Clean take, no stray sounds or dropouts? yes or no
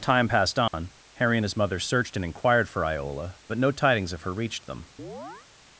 no